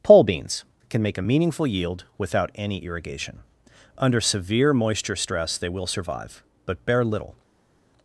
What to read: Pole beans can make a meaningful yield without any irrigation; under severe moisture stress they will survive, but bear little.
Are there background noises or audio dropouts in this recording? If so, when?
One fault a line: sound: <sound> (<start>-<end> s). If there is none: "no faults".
no faults